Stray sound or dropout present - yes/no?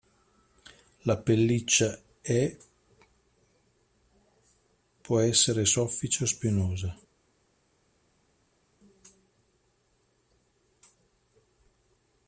no